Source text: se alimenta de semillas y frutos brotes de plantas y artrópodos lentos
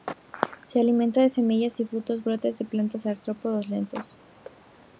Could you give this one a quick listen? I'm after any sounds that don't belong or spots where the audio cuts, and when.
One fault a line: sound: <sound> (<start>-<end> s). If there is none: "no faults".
sound: thud (4.4-4.6 s)